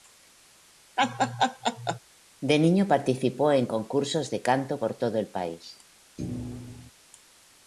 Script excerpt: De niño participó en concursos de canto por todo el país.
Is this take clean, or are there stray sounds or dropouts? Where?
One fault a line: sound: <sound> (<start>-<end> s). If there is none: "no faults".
sound: laugh (1.0-2.0 s)
sound: thud (6.2-6.9 s)